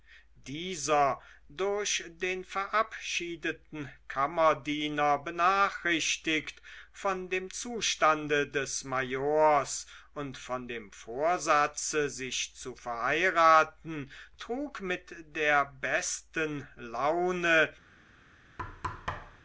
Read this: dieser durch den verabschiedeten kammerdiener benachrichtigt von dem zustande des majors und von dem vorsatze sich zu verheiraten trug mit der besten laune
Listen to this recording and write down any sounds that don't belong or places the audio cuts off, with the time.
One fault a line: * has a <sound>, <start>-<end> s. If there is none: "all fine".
* has a thud, 18.6-19.4 s